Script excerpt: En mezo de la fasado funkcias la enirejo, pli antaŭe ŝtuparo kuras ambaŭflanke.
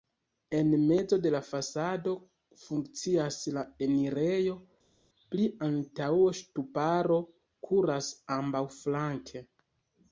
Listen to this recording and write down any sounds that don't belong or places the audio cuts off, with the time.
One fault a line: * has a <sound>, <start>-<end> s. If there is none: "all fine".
all fine